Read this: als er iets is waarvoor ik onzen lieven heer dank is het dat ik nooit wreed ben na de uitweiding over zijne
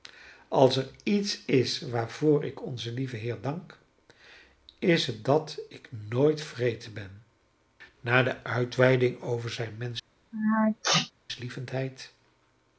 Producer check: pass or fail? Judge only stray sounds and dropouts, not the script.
fail